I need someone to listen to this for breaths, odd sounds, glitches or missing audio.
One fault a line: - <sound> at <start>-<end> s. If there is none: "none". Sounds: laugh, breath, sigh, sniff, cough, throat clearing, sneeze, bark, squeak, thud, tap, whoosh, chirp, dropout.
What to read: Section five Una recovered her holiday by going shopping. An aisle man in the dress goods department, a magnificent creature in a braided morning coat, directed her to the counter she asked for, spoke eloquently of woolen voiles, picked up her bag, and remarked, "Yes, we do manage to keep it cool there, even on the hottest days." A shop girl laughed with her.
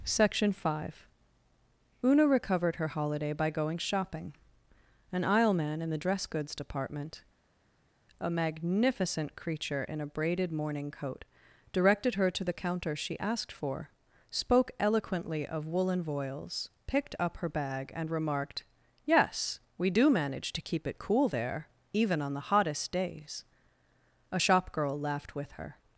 none